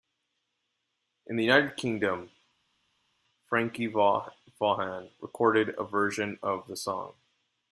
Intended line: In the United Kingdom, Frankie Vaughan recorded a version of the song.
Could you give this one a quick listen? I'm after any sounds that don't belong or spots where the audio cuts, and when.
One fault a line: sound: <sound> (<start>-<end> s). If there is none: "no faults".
no faults